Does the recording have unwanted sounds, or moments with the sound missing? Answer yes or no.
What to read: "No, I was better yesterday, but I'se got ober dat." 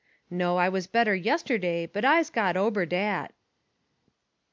no